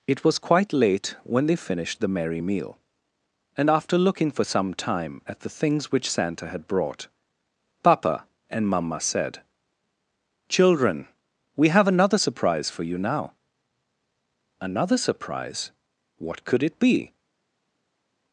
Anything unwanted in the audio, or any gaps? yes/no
no